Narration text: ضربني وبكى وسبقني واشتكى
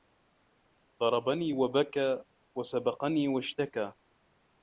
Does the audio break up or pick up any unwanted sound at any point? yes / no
no